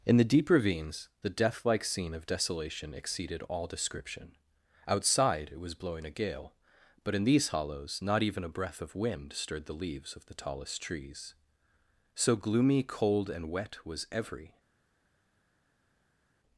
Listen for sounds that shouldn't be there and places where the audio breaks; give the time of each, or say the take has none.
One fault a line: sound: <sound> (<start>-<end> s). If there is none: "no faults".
no faults